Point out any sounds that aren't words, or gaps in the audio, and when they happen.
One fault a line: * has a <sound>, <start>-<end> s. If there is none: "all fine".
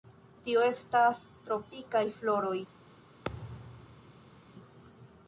* has a thud, 3.2-4.5 s